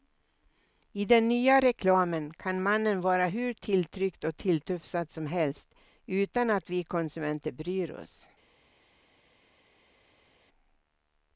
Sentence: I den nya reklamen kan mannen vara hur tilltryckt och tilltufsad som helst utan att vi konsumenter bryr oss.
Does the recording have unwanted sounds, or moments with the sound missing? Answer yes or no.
no